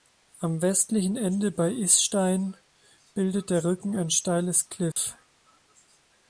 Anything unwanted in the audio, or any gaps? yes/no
yes